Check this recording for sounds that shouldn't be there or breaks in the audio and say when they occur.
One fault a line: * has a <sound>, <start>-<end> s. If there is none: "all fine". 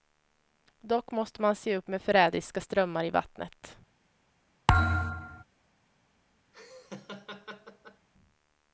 * has a thud, 4.7-5.4 s
* has a laugh, 6.5-8.1 s